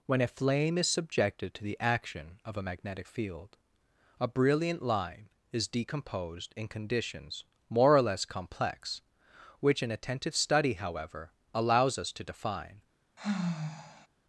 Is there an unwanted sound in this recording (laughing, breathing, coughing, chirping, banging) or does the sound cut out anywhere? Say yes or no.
yes